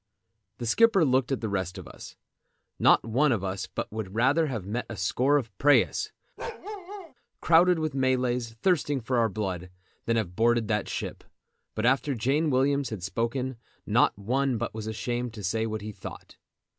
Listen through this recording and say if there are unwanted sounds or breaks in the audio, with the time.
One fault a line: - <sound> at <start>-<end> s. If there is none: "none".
- bark at 6.4-7.1 s